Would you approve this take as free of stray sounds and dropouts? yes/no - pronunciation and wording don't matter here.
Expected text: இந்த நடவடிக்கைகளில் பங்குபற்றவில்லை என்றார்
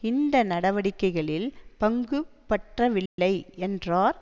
no